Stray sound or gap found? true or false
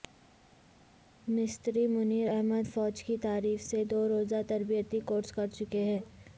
false